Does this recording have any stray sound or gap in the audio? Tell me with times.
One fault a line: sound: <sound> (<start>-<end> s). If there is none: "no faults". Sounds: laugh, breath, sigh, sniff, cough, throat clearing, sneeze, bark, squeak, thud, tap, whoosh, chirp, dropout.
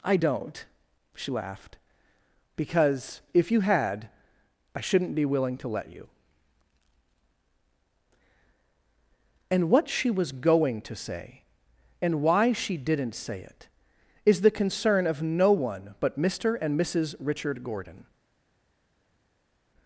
no faults